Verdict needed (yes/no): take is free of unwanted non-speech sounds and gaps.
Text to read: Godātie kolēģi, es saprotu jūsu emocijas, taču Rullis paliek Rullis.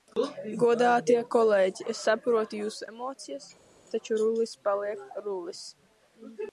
yes